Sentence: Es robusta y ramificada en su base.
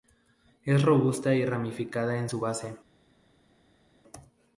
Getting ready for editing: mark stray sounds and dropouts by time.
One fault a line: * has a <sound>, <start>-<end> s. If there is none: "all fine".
all fine